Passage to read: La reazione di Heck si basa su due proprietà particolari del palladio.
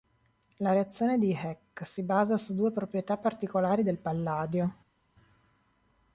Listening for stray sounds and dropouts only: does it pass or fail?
pass